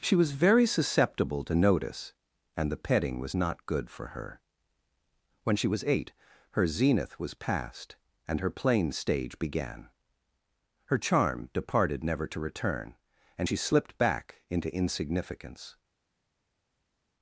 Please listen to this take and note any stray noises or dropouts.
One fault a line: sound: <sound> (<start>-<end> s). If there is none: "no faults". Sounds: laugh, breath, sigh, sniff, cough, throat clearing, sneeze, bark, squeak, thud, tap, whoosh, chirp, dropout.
no faults